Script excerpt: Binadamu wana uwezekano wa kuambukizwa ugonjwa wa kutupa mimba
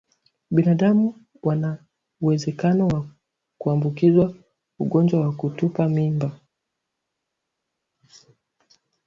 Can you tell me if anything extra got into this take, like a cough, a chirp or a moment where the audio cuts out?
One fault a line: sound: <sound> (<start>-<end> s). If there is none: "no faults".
no faults